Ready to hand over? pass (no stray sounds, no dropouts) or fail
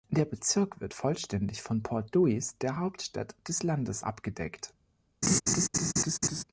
fail